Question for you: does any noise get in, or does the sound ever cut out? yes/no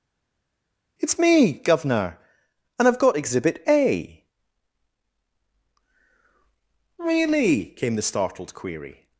no